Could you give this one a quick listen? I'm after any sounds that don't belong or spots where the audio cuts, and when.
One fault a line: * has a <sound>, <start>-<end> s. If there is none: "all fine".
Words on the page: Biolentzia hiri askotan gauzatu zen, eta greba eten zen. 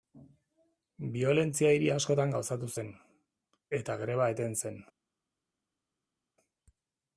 all fine